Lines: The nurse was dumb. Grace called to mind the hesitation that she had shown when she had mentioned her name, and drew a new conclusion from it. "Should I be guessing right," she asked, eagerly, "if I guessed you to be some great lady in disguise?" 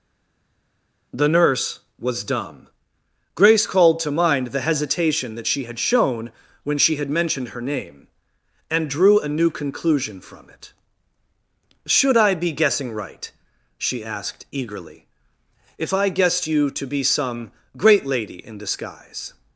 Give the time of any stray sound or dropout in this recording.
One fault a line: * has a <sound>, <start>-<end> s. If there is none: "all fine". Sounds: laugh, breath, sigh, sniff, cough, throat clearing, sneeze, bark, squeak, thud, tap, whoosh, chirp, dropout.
all fine